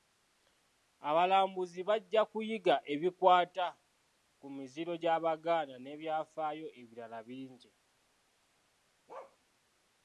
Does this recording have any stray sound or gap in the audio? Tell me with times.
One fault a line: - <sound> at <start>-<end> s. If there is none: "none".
- bark at 9.1-9.4 s